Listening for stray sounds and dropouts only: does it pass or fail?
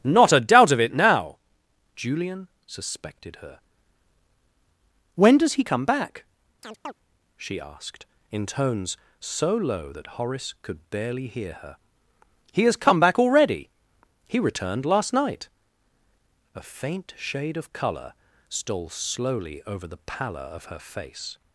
fail